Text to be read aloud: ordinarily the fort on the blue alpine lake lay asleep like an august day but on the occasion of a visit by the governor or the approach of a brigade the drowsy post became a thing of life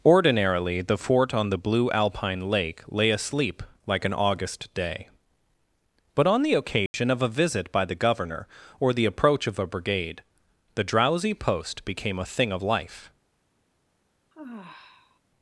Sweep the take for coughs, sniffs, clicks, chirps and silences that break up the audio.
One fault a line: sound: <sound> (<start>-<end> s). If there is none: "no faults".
sound: dropout (6.9-6.9 s)
sound: sigh (14.3-15.2 s)